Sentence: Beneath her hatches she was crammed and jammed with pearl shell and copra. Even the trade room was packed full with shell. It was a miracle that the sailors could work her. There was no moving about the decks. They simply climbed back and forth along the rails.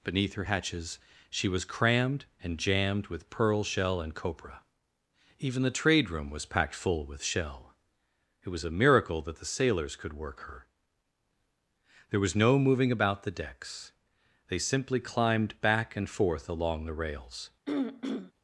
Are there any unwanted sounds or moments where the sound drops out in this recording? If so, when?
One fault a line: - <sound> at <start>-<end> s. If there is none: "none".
- throat clearing at 17.7-18.3 s